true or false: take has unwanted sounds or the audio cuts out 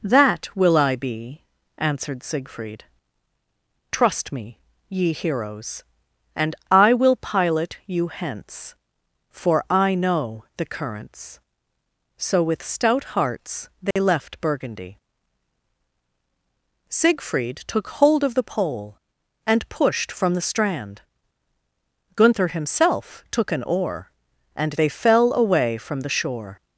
true